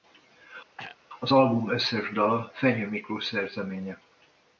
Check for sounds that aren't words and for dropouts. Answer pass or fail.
fail